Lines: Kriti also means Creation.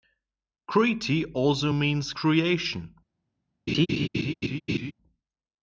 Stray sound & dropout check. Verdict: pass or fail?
fail